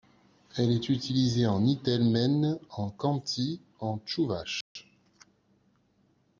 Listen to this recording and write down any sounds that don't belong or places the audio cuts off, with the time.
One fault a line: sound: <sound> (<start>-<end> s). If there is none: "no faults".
sound: dropout (4.6-4.8 s)